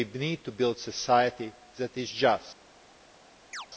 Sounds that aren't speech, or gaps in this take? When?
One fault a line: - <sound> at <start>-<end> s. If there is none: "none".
- chirp at 3.5-3.7 s